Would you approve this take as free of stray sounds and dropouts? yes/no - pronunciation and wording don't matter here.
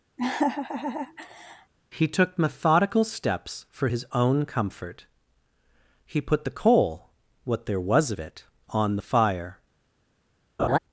no